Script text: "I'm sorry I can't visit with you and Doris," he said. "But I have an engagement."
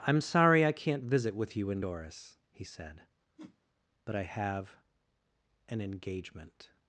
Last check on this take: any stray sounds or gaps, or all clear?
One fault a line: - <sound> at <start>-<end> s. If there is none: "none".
- whoosh at 3.4-3.6 s